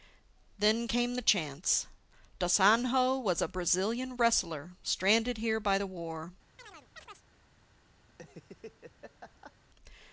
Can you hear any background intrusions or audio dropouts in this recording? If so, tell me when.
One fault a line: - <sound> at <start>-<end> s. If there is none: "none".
- chirp at 6.6-7.2 s
- laugh at 8.1-9.5 s